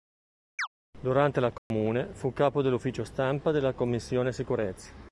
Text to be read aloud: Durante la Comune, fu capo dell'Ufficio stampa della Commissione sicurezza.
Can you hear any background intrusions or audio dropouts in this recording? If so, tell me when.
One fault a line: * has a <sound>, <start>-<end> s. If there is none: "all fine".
* has a chirp, 0.6-0.7 s
* has a dropout, 1.6-1.7 s